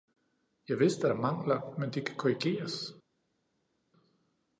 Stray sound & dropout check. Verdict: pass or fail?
pass